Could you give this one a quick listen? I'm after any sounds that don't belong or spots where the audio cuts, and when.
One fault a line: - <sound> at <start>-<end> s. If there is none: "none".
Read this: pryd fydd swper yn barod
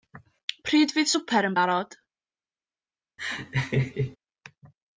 - laugh at 3.2-4.2 s